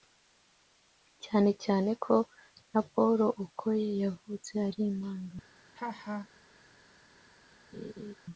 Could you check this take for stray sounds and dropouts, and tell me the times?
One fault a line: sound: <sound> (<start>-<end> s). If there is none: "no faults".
sound: laugh (5.7-6.3 s)
sound: laugh (7.7-8.1 s)